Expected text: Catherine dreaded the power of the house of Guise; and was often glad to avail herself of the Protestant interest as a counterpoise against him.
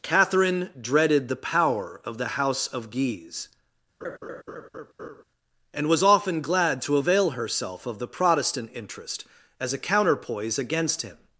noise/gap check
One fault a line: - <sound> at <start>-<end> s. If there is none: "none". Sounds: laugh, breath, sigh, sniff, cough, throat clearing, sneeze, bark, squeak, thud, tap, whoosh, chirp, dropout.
- laugh at 4.0-5.2 s